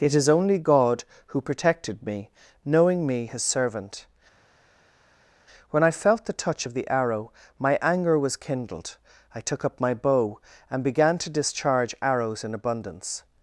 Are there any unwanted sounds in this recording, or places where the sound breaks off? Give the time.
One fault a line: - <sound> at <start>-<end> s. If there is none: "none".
none